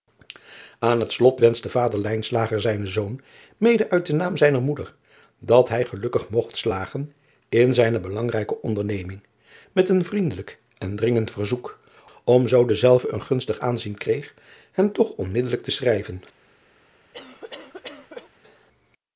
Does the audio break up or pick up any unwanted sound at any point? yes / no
yes